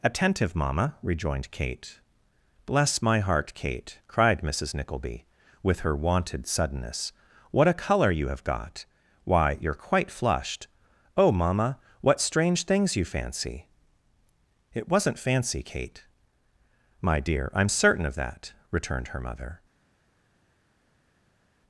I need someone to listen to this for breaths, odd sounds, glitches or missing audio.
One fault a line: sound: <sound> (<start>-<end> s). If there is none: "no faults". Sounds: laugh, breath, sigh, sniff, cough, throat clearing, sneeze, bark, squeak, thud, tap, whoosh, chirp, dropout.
no faults